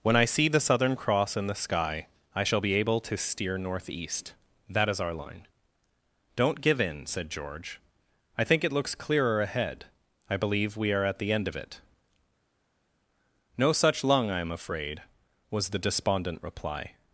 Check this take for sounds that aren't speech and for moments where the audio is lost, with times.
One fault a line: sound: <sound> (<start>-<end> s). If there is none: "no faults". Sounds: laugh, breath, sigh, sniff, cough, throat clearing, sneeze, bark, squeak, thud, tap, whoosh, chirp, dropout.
no faults